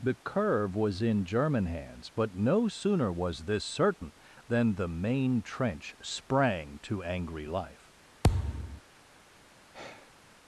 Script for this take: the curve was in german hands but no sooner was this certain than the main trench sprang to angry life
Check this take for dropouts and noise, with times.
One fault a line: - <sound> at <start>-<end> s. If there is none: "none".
- thud at 8.2-8.8 s
- sigh at 9.7-10.2 s